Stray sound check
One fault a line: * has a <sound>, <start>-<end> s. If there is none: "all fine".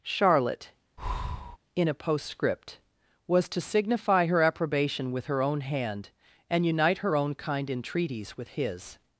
* has a breath, 1.0-1.6 s